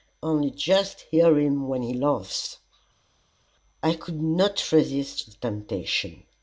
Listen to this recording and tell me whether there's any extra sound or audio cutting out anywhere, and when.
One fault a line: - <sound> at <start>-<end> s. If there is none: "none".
none